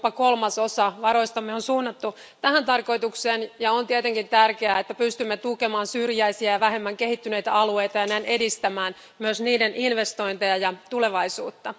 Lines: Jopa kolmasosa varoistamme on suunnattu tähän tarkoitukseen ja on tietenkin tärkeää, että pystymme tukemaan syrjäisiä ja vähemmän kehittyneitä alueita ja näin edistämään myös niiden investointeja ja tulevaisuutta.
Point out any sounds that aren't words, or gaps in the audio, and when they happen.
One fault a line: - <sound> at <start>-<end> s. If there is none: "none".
none